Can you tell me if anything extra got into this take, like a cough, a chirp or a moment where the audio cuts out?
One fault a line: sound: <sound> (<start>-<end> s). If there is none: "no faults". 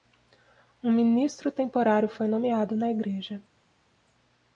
no faults